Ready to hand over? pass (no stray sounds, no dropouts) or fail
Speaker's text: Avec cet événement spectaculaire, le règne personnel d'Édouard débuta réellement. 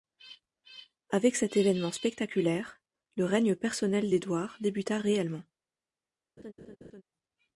fail